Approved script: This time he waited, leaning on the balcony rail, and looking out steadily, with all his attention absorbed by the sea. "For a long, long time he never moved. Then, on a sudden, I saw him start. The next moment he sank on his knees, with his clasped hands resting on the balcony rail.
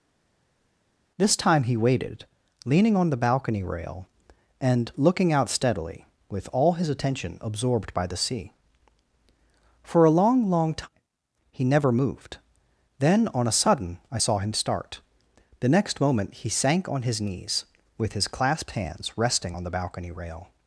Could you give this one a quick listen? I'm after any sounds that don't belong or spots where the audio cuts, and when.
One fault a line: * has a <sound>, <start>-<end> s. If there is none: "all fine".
all fine